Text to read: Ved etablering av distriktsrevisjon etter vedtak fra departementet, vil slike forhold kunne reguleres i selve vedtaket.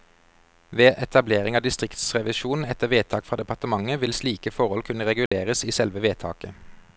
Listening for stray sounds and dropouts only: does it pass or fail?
fail